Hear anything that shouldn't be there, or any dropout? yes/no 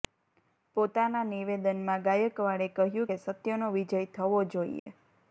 yes